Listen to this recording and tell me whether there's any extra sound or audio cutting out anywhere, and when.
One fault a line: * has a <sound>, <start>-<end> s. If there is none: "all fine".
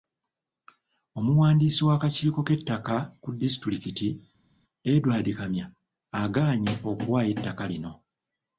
all fine